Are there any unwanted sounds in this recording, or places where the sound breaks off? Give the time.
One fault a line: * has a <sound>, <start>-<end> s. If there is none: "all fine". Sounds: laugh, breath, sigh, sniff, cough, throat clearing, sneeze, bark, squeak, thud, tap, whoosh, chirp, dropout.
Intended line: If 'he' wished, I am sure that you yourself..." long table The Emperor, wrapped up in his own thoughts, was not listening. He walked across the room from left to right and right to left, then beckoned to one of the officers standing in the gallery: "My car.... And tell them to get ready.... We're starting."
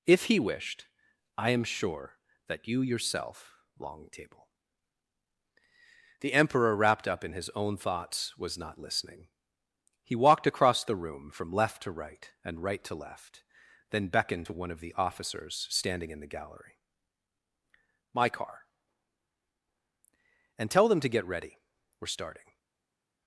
all fine